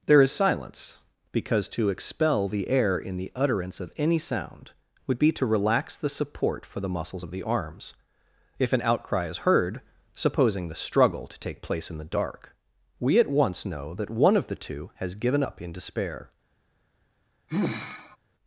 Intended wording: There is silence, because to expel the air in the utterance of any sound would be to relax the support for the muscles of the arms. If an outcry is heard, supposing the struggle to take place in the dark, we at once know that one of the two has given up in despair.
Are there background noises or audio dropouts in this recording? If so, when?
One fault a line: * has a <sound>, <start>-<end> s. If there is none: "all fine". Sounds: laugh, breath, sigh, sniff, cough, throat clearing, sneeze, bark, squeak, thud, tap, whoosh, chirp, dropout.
* has a sigh, 17.5-18.2 s